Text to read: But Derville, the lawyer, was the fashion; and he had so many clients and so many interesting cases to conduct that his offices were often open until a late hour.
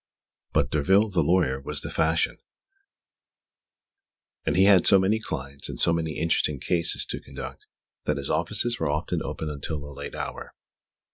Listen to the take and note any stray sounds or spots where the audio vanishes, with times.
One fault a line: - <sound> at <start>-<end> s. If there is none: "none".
none